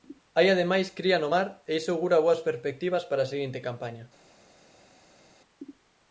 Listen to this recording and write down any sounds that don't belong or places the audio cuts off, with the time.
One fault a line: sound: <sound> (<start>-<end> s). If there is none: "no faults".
no faults